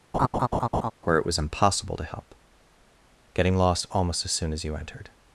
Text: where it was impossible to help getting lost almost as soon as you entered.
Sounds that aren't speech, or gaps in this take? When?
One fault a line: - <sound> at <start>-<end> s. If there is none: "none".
- laugh at 0.1-0.9 s